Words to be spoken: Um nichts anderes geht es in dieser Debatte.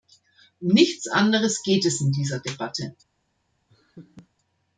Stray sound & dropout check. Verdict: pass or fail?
fail